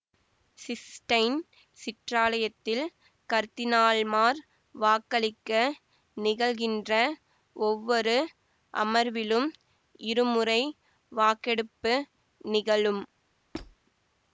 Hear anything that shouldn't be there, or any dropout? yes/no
yes